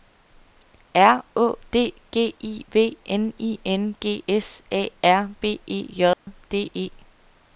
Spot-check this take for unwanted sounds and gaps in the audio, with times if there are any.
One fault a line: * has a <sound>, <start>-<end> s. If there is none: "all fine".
* has a dropout, 6.1-6.3 s